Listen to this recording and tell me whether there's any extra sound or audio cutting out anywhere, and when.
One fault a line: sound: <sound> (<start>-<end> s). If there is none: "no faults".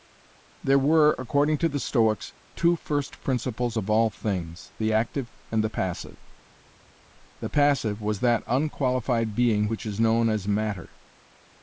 no faults